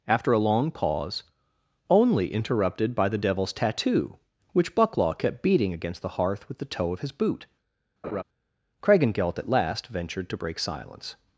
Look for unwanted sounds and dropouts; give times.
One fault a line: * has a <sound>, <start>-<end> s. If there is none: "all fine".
* has a laugh, 8.0-8.2 s